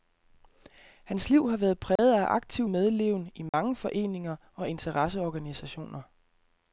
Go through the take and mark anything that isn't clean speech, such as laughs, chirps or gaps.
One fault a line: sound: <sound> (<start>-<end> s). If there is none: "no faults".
sound: dropout (2.0-2.0 s)
sound: dropout (3.5-3.5 s)